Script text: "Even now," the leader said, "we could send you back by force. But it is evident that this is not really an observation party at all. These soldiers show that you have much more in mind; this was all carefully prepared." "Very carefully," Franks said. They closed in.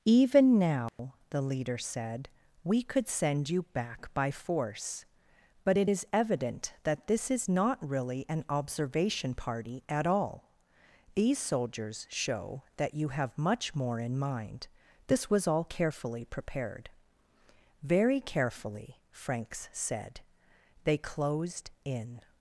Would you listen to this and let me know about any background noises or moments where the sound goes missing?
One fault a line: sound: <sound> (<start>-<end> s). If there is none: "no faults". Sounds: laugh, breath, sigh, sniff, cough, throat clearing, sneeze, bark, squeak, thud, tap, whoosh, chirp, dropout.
sound: dropout (0.9-1.0 s)